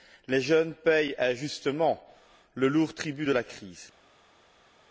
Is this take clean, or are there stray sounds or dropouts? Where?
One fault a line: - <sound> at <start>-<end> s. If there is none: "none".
none